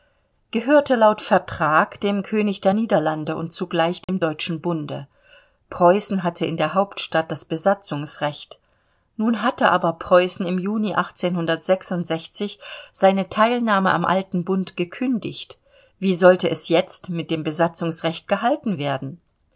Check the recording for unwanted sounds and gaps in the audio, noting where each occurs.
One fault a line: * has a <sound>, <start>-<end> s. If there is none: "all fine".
* has a dropout, 4.0-4.1 s